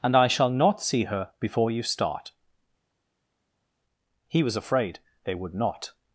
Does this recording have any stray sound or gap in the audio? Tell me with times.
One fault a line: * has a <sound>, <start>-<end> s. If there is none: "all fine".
all fine